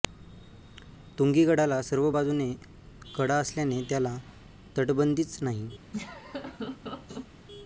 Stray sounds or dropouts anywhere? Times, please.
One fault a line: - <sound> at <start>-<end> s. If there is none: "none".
- laugh at 5.9-7.3 s